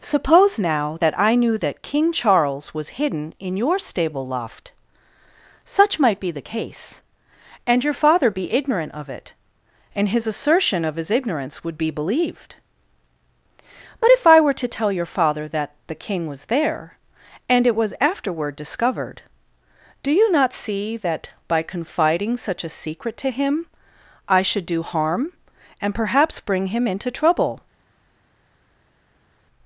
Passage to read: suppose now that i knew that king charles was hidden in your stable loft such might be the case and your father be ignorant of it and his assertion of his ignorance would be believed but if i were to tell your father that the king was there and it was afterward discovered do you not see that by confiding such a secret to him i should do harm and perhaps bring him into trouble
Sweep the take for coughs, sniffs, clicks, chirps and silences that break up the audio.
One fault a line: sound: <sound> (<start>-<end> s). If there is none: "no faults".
no faults